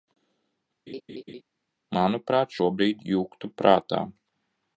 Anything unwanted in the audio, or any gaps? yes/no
yes